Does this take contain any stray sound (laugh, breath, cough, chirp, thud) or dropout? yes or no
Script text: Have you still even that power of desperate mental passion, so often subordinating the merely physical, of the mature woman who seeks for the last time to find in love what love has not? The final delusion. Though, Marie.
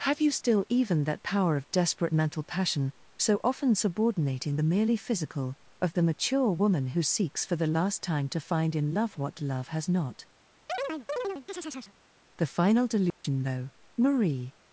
yes